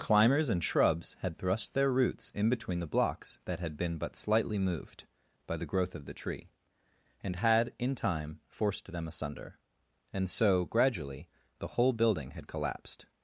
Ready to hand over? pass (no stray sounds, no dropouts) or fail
pass